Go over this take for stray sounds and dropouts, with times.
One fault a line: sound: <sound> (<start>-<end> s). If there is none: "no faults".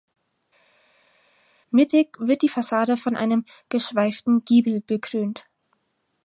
no faults